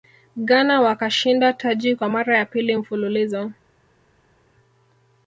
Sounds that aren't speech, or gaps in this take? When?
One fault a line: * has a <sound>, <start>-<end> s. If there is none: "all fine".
all fine